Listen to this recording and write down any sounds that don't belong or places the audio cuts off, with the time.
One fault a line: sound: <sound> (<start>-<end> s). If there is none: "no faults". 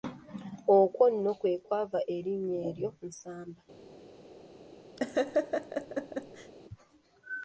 sound: laugh (5.0-6.5 s)